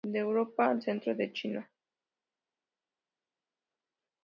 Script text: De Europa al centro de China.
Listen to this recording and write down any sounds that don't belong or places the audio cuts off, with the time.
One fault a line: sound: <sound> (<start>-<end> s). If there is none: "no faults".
no faults